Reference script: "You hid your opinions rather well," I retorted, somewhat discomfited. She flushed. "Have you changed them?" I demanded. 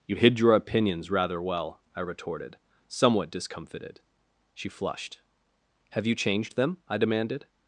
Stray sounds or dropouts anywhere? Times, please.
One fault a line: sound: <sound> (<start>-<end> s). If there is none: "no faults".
no faults